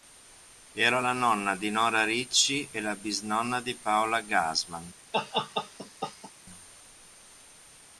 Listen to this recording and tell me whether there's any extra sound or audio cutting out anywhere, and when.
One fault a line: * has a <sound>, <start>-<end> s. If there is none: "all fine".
* has a laugh, 5.1-6.3 s